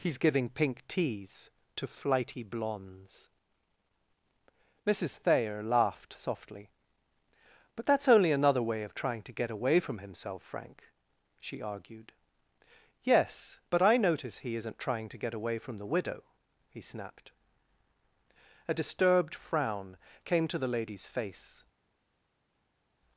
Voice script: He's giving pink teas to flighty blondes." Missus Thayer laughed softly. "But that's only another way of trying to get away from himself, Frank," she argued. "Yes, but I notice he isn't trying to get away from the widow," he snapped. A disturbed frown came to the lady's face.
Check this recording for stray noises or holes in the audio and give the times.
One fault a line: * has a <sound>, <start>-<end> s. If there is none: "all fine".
all fine